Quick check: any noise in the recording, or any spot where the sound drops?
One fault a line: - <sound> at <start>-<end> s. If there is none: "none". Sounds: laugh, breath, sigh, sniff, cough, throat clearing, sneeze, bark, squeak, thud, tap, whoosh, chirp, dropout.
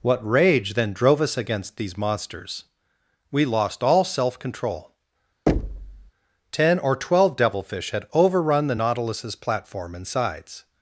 - thud at 5.5-6.1 s